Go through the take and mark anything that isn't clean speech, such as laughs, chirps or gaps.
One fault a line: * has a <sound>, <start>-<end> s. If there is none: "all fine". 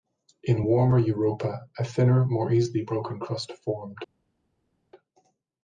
all fine